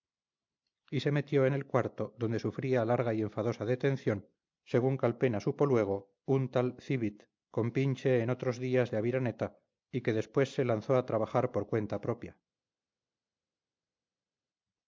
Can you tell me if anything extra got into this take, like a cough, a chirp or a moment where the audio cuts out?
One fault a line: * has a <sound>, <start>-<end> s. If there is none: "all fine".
all fine